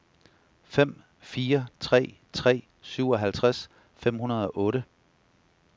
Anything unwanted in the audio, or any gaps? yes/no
no